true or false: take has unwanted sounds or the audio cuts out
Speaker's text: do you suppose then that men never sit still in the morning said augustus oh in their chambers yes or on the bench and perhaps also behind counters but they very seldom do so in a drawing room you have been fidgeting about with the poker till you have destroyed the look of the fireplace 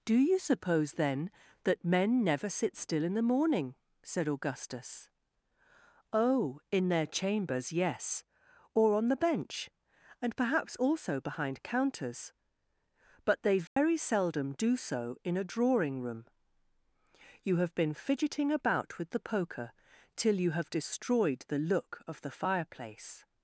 true